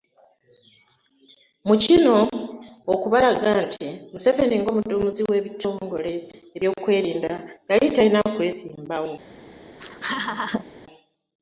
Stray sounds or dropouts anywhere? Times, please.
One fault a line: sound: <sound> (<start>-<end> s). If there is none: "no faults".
sound: laugh (9.8-10.7 s)